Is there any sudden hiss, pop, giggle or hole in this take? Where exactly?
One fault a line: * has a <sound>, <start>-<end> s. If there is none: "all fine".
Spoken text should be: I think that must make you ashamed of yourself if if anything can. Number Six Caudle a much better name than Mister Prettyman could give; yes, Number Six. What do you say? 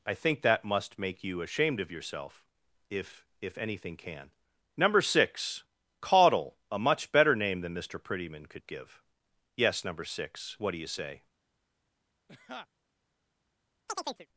* has a laugh, 12.3-12.7 s
* has a chirp, 13.9-14.3 s